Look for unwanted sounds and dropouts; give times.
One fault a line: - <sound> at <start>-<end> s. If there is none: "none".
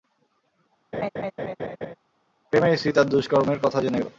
- laugh at 0.9-1.9 s